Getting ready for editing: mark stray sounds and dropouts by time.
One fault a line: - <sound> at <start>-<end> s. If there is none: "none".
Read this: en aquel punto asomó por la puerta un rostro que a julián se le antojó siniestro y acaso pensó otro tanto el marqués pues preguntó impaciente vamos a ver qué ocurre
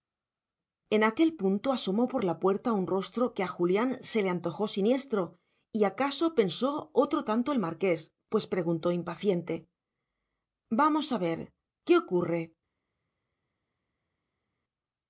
none